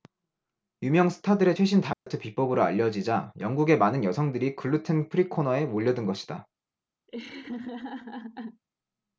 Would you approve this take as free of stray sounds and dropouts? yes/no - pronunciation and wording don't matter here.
no